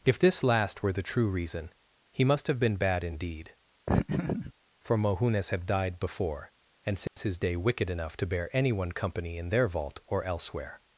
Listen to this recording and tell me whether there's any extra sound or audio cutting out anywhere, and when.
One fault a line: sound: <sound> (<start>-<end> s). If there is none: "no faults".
sound: laugh (3.9-4.5 s)
sound: dropout (7.1-7.2 s)